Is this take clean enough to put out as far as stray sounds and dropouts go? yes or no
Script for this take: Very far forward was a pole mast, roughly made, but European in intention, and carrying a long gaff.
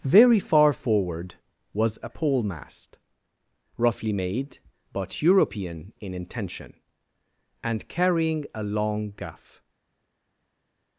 yes